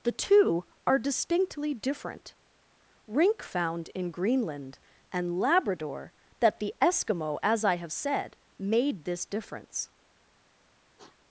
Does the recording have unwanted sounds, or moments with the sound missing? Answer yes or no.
yes